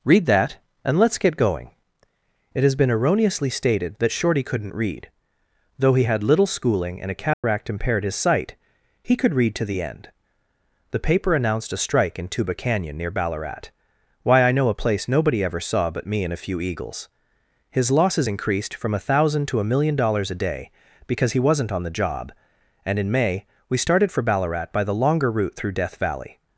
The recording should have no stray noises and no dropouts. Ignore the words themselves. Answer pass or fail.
fail